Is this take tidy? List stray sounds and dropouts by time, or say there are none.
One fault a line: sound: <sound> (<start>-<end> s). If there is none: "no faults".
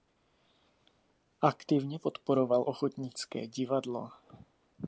no faults